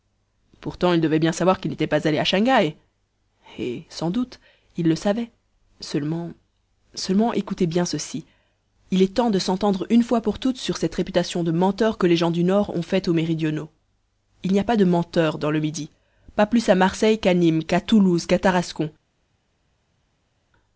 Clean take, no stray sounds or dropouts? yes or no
yes